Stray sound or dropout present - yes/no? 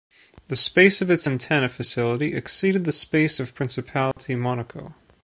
yes